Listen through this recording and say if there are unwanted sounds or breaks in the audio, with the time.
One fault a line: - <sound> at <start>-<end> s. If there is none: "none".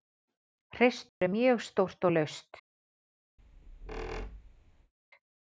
- dropout at 1.1-1.2 s
- squeak at 3.4-4.9 s